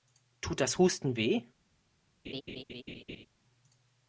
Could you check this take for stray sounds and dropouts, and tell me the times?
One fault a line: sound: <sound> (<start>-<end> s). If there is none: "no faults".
sound: laugh (2.2-3.3 s)